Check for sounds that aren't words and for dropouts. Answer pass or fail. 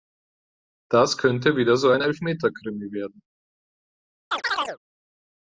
fail